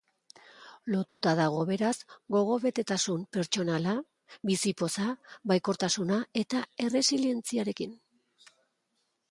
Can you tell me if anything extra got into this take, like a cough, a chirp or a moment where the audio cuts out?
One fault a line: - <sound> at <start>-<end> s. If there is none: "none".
- dropout at 1.1-1.2 s